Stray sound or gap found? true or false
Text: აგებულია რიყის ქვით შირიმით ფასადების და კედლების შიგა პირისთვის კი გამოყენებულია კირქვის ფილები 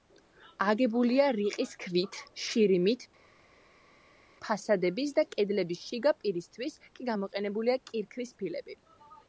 false